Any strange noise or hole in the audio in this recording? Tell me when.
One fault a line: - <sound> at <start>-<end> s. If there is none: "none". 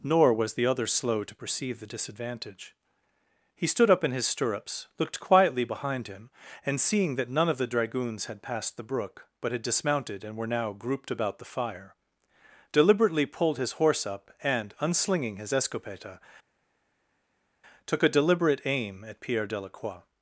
none